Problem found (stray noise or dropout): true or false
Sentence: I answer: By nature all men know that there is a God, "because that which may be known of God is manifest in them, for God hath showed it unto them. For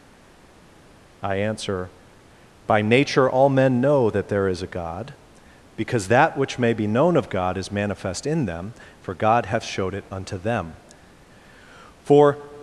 false